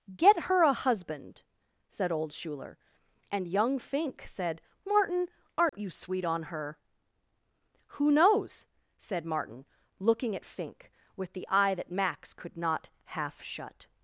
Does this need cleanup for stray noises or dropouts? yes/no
yes